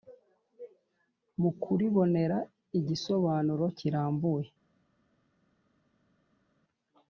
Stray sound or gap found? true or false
false